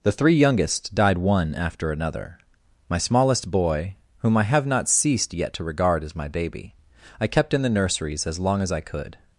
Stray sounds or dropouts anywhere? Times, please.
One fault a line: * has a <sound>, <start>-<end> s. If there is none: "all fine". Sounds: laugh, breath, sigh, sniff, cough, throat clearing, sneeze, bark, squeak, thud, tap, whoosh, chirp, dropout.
all fine